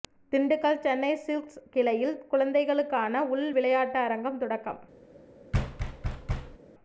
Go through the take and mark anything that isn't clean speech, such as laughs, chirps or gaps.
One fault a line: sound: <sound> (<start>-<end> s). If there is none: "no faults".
sound: thud (5.5-6.6 s)